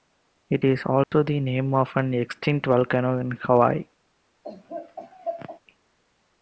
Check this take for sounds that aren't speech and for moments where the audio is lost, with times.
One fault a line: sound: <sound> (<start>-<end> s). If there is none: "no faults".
sound: dropout (1.0-1.1 s)
sound: laugh (4.4-5.6 s)